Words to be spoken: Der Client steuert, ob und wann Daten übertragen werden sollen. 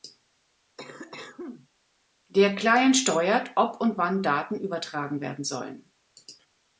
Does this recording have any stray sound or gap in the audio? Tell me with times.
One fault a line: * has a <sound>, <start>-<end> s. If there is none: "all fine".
* has a cough, 0.8-1.7 s